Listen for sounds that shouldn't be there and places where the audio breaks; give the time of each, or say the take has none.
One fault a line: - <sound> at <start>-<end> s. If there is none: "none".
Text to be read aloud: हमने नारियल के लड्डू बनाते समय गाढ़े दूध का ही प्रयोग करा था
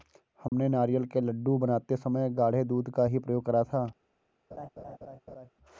- dropout at 0.5-0.5 s
- laugh at 4.5-5.5 s